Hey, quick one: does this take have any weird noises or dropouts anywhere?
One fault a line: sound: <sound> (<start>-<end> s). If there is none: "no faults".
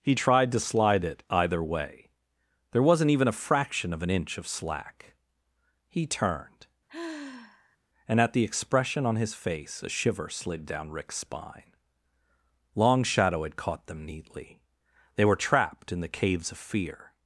sound: sigh (6.9-7.8 s)